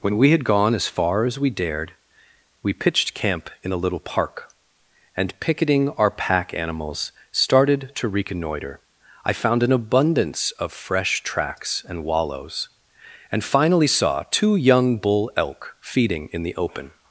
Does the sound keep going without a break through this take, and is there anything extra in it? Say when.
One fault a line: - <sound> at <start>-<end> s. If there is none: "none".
none